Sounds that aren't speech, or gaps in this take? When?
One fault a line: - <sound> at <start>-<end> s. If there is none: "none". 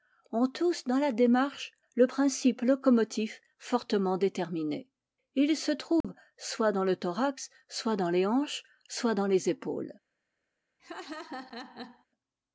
- dropout at 6.0-6.0 s
- laugh at 10.8-12.1 s